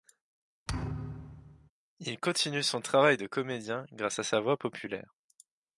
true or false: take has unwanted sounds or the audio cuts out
true